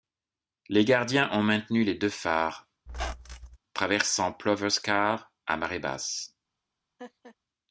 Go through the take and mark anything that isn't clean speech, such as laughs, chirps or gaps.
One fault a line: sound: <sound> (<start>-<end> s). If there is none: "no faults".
sound: squeak (2.9-3.6 s)
sound: laugh (7.0-7.4 s)